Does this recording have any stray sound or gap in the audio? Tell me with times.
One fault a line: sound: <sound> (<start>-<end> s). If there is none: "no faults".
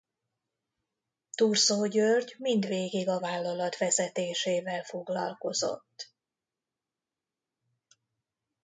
no faults